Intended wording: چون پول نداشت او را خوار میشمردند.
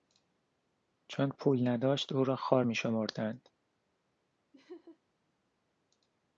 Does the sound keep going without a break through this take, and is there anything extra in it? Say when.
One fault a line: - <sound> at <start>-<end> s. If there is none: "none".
- laugh at 4.5-5.0 s